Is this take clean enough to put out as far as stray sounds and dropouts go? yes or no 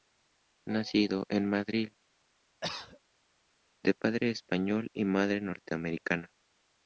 no